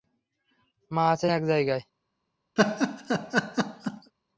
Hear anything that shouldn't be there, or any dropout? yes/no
yes